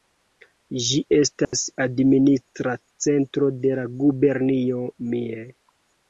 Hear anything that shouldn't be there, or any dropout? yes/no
yes